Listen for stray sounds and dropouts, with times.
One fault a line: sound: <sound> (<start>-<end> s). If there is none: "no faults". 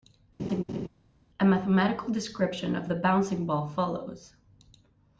sound: laugh (0.4-0.9 s)